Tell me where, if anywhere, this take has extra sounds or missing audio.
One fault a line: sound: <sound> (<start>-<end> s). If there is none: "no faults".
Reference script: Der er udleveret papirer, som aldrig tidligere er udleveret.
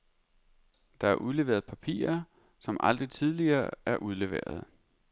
no faults